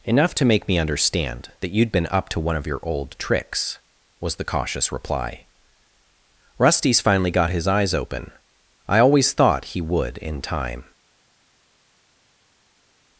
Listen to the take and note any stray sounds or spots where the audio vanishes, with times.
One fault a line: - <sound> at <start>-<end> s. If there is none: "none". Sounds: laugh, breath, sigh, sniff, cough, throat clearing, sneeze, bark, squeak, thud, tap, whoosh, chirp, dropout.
none